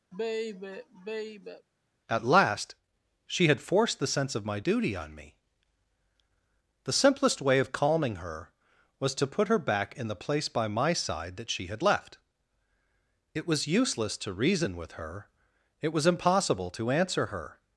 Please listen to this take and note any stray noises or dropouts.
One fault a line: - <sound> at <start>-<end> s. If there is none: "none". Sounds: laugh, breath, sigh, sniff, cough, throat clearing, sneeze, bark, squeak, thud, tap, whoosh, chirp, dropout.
- sigh at 0.1-1.7 s